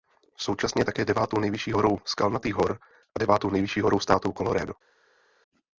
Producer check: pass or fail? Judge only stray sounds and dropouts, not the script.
pass